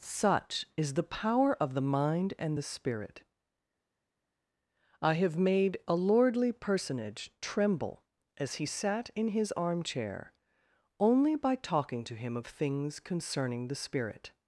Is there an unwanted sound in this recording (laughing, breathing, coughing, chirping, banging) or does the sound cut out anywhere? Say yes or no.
no